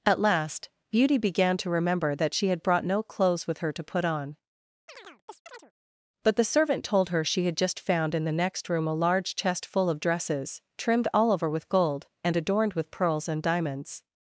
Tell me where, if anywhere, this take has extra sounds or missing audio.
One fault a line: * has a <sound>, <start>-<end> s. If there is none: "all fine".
* has a chirp, 4.9-5.7 s